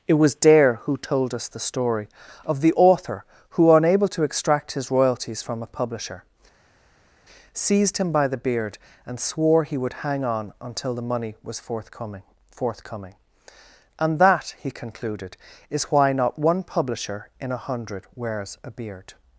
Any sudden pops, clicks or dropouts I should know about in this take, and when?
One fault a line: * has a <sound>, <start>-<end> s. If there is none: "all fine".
all fine